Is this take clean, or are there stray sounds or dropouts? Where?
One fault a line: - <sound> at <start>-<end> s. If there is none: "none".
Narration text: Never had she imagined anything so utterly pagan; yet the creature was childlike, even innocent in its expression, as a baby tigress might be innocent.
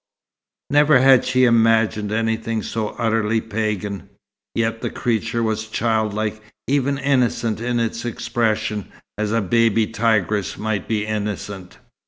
none